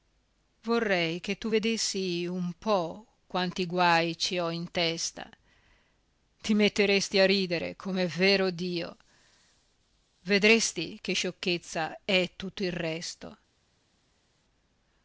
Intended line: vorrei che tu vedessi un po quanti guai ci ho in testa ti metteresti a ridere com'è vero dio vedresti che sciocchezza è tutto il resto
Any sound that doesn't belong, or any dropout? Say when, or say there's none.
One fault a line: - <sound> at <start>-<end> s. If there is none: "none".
none